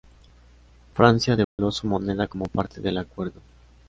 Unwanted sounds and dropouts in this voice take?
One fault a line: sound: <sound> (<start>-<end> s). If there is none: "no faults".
sound: dropout (1.4-1.6 s)